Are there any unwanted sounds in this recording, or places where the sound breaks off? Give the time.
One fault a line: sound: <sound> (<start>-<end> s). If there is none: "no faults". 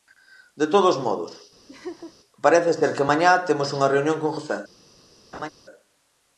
sound: laugh (1.7-2.1 s)
sound: laugh (5.3-5.5 s)